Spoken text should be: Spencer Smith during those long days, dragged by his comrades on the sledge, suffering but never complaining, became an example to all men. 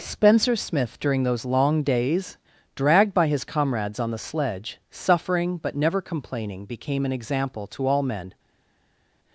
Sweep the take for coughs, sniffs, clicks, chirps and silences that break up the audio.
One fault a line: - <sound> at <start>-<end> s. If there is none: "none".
none